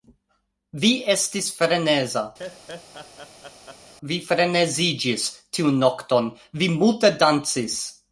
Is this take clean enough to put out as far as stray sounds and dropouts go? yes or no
no